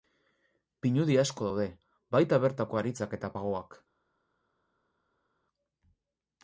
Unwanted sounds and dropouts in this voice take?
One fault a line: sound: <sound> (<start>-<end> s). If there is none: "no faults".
no faults